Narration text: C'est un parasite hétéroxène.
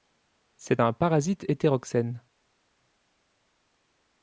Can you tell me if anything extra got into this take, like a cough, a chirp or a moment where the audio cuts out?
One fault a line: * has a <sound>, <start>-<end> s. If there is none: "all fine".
all fine